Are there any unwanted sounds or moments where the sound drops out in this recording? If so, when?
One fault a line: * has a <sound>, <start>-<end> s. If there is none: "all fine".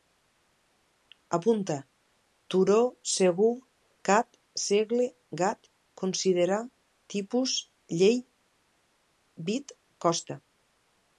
all fine